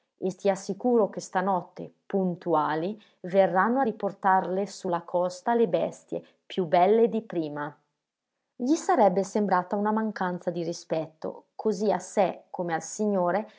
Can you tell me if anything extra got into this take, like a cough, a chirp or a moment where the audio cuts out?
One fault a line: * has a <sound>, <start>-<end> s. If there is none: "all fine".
all fine